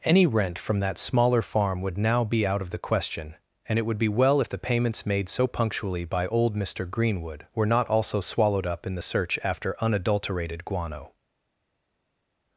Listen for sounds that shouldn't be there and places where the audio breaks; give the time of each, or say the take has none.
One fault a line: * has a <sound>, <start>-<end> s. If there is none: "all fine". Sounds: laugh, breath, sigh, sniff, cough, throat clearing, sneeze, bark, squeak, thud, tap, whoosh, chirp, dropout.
all fine